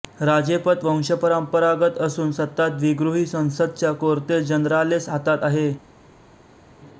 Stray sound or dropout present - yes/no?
no